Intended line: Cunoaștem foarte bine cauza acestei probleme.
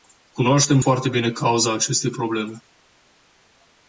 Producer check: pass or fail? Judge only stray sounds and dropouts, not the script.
pass